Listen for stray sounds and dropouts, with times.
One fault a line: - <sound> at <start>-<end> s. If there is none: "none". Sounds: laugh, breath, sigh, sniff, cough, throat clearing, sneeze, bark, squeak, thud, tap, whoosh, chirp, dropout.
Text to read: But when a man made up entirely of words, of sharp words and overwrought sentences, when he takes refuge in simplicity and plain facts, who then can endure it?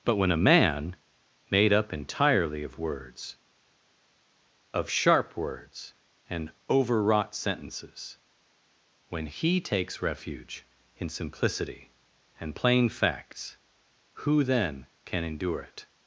none